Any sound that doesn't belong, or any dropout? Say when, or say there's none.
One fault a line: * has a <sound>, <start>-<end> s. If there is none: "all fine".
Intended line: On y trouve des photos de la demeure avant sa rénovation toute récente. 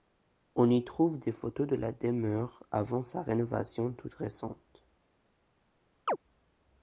* has a chirp, 6.1-6.2 s